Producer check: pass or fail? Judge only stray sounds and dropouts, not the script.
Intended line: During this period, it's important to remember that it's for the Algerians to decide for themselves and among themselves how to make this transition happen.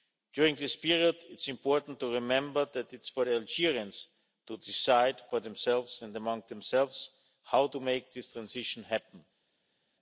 pass